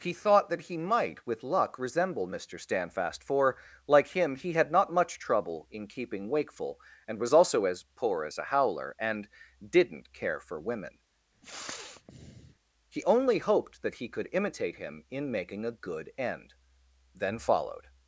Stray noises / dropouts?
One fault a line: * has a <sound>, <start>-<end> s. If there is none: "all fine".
* has a sniff, 11.4-12.5 s